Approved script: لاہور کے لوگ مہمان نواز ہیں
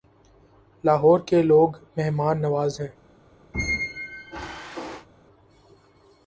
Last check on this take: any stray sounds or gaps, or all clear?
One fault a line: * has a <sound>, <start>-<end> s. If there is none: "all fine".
* has a squeak, 3.5-5.1 s